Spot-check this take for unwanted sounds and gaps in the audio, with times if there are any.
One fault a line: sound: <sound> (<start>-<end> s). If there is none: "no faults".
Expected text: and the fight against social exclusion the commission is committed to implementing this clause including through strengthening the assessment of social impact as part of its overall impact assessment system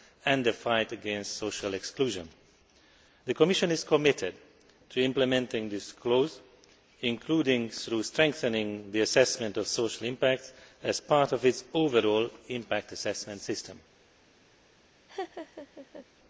sound: laugh (15.1-16.1 s)